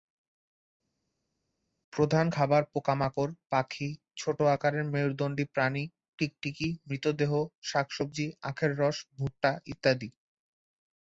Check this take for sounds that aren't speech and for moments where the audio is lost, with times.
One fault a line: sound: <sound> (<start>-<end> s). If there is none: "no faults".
no faults